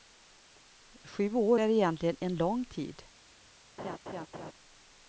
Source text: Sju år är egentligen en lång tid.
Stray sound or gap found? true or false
true